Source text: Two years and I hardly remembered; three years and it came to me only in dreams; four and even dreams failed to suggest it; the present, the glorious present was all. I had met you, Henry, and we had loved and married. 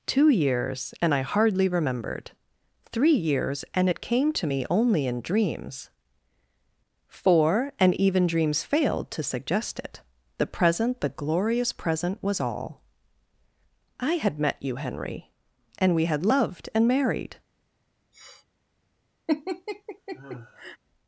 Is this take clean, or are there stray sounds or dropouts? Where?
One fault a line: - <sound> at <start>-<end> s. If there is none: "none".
- sniff at 18.1-18.5 s
- laugh at 19.3-20.8 s